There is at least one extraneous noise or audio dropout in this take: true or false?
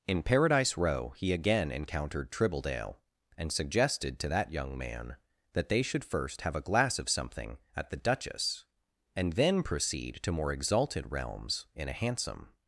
false